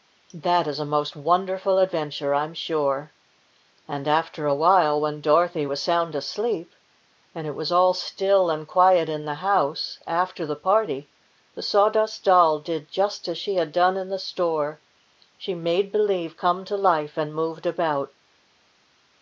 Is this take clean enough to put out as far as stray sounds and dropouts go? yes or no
yes